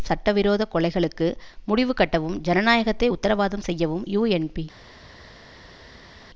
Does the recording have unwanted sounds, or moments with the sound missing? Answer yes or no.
no